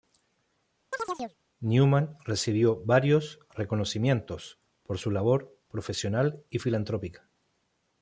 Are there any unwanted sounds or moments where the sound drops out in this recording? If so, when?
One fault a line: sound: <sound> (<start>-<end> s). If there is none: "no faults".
sound: chirp (0.9-1.4 s)